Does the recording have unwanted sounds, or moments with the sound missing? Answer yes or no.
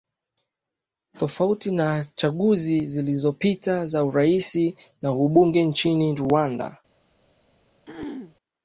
yes